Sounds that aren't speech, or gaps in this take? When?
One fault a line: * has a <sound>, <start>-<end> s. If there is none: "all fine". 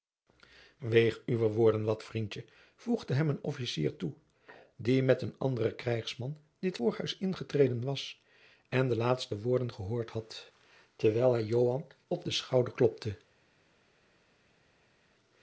all fine